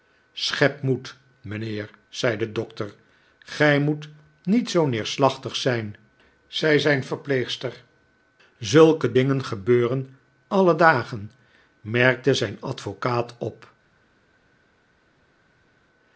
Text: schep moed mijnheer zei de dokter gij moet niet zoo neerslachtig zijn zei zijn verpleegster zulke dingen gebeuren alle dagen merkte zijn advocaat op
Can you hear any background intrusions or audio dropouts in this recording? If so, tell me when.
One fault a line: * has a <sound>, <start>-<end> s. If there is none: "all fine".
all fine